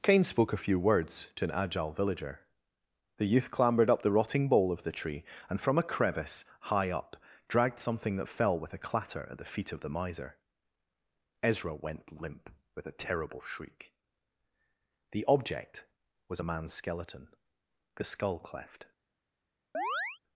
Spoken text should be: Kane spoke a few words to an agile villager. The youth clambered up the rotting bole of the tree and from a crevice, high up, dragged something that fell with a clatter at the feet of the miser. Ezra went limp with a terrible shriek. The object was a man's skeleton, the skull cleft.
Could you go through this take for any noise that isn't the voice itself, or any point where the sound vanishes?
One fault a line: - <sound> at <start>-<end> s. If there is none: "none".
- chirp at 19.7-20.2 s